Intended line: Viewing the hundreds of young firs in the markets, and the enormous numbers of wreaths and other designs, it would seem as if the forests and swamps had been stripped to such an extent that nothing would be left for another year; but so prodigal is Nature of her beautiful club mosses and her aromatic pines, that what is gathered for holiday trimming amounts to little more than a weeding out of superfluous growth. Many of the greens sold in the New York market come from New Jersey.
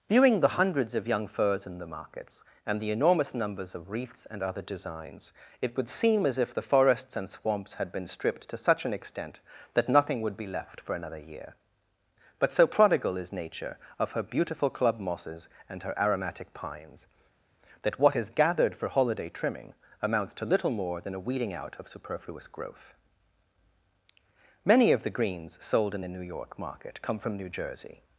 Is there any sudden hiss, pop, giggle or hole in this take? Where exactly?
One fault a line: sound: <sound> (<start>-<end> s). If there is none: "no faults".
no faults